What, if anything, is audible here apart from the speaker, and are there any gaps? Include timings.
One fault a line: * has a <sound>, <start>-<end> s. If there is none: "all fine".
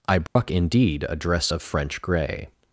* has a dropout, 0.3-0.4 s